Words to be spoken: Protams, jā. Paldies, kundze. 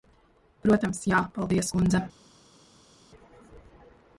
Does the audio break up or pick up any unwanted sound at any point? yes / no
no